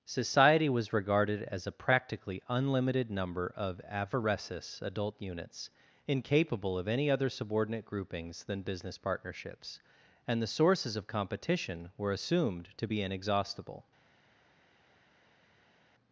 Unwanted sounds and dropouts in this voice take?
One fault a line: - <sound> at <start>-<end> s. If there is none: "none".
none